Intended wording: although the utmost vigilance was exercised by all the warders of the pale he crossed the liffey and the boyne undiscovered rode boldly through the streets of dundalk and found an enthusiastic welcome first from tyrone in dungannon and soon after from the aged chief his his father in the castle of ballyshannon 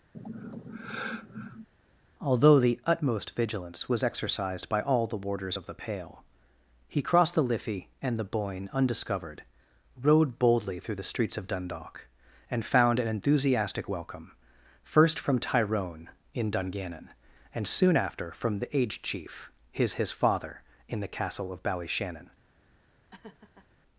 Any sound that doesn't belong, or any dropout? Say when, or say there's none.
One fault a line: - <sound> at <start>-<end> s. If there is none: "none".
- sigh at 0.1-1.7 s
- laugh at 23.1-23.7 s